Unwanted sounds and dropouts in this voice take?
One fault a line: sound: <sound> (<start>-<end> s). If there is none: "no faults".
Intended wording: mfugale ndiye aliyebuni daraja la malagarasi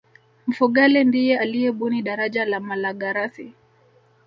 no faults